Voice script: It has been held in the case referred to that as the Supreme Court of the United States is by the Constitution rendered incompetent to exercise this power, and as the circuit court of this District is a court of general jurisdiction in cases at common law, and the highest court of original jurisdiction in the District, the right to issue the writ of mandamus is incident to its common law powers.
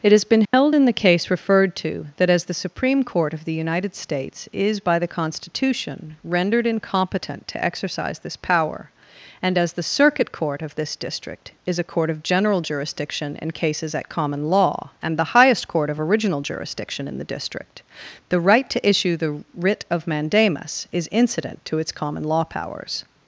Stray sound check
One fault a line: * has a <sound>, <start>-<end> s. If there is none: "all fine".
* has a dropout, 0.4-0.5 s